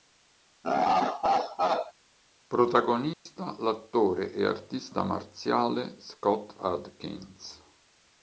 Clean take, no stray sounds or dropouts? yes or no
no